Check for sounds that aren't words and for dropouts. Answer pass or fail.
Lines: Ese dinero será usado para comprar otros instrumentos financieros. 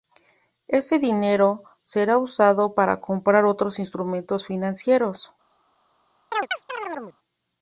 fail